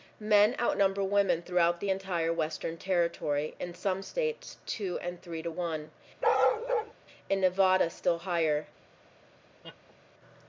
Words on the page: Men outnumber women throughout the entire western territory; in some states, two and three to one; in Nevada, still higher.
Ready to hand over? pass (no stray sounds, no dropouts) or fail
fail